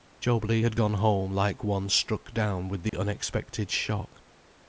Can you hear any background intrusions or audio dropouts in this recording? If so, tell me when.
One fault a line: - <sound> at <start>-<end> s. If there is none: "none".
- dropout at 2.9-2.9 s